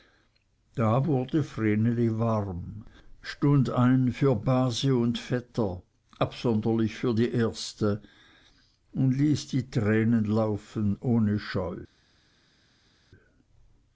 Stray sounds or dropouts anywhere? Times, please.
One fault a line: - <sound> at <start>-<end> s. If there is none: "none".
none